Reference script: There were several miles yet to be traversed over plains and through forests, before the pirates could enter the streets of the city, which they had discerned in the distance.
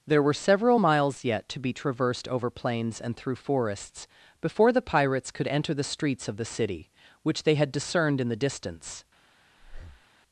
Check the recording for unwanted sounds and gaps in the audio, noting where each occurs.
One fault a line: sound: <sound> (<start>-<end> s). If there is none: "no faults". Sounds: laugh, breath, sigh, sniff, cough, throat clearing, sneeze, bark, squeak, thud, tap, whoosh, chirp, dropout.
sound: breath (9.6-10.1 s)